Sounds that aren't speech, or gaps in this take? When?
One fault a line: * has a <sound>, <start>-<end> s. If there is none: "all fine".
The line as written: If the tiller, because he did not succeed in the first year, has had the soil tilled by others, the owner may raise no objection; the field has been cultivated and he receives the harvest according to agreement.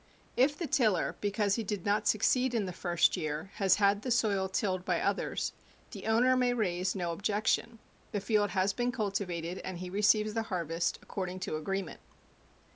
all fine